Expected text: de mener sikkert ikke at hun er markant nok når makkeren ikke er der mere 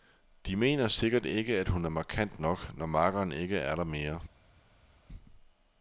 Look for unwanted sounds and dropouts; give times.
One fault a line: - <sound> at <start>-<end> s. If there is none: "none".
none